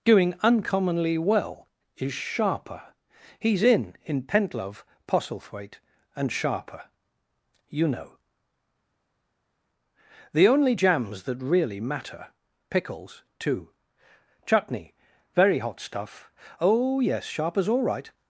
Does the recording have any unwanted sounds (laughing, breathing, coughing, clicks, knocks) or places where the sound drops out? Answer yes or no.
no